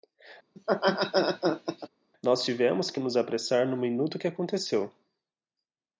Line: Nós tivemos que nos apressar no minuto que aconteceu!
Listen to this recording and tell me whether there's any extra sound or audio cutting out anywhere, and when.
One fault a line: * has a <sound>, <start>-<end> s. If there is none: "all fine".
* has a laugh, 0.6-1.9 s